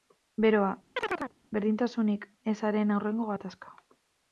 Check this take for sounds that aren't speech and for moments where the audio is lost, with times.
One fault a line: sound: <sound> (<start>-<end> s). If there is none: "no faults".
sound: chirp (1.0-1.3 s)